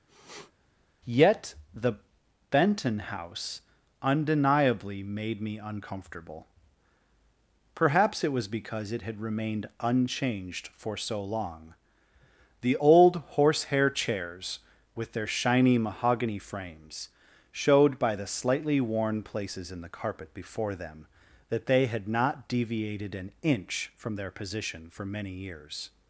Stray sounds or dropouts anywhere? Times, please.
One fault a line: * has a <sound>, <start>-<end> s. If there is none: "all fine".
* has a sniff, 0.1-0.5 s